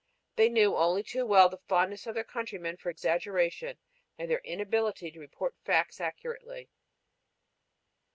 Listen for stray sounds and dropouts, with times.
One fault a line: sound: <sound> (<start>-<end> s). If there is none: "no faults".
no faults